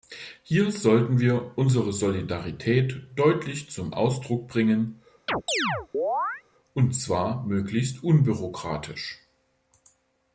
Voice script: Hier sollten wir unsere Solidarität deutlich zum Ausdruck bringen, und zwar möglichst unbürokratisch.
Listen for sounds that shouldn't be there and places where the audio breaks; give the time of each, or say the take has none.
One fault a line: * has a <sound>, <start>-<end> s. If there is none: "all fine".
* has a chirp, 5.3-6.4 s